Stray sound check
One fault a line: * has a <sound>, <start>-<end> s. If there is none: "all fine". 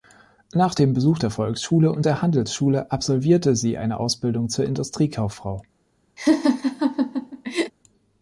* has a laugh, 6.2-7.7 s